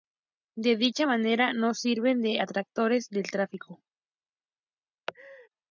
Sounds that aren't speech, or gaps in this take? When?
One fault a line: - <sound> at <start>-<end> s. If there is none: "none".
- laugh at 5.1-5.5 s